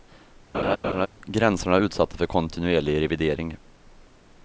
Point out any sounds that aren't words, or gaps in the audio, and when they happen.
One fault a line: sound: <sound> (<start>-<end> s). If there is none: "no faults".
sound: laugh (0.5-1.1 s)